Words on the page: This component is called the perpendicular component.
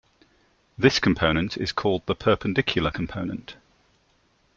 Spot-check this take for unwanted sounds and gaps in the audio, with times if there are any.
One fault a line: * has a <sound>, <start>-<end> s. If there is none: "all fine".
all fine